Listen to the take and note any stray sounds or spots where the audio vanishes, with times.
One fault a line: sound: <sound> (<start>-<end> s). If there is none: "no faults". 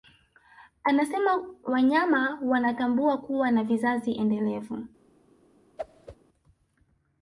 sound: whoosh (5.8-6.2 s)